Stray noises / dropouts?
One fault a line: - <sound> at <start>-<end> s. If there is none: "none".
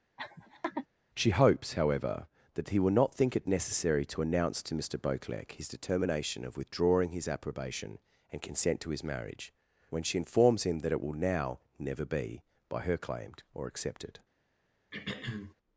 - laugh at 0.2-0.9 s
- throat clearing at 14.9-15.5 s